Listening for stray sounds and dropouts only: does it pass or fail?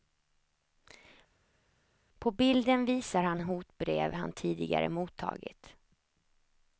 pass